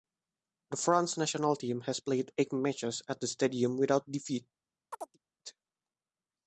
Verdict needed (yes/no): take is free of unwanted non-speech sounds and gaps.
no